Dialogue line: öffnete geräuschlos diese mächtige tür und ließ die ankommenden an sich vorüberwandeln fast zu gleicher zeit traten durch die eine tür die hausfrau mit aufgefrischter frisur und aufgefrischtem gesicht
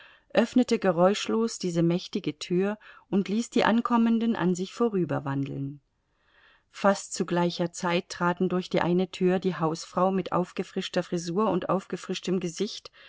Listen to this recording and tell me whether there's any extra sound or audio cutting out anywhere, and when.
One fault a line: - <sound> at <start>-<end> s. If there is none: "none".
none